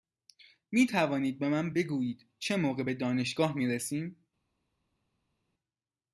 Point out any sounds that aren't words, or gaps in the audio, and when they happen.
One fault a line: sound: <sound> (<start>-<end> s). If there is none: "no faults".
no faults